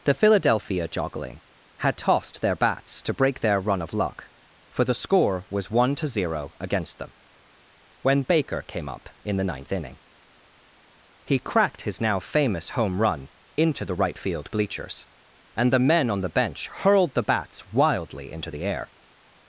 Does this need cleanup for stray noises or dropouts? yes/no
no